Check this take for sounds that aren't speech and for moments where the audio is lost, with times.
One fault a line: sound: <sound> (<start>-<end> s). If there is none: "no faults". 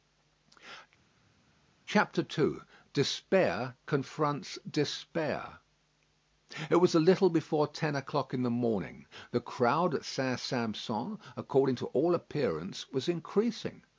no faults